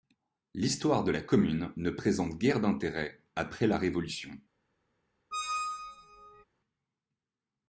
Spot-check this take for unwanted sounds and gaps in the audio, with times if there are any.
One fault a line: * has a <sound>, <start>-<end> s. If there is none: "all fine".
* has a squeak, 5.3-6.4 s